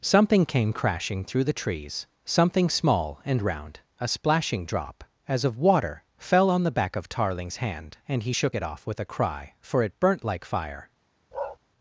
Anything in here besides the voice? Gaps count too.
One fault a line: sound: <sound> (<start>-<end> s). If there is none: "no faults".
sound: bark (11.3-11.6 s)